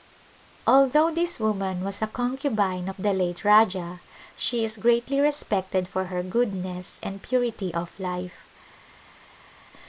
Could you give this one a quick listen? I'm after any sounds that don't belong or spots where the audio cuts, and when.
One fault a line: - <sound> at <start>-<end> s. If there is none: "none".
none